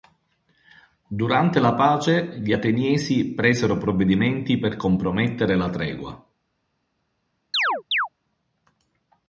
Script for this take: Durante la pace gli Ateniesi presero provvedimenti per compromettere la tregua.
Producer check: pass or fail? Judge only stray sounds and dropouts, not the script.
fail